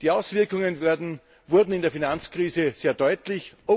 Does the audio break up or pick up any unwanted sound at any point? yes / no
no